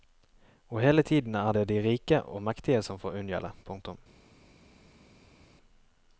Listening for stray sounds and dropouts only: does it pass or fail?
pass